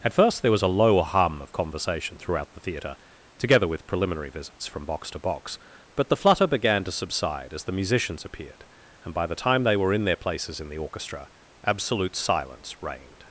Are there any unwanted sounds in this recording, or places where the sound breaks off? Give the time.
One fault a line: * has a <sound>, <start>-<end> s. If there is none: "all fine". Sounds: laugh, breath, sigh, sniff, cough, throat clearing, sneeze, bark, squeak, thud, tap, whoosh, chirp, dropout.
all fine